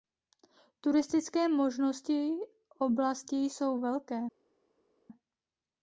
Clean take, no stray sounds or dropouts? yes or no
yes